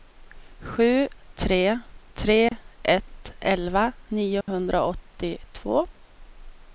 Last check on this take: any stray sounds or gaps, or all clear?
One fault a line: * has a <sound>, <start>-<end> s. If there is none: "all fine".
* has a dropout, 2.5-2.5 s
* has a dropout, 4.4-4.5 s